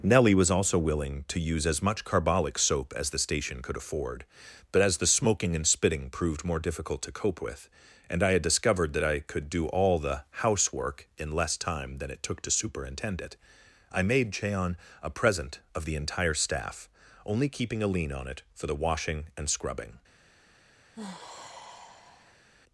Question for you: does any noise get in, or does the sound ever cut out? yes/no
yes